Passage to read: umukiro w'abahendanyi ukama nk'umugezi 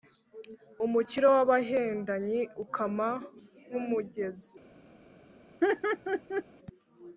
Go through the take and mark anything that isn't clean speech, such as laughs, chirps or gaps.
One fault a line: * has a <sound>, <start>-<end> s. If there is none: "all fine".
* has a laugh, 5.6-6.4 s